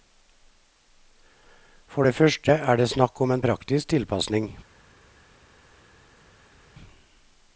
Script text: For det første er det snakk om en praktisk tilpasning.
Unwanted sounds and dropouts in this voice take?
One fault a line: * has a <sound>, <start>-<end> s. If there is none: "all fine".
all fine